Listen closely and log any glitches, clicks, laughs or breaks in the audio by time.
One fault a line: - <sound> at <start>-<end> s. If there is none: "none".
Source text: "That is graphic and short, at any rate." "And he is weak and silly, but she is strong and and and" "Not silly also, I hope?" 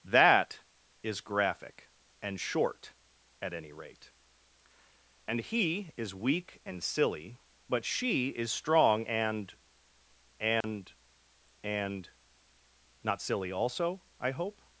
- dropout at 10.6-10.6 s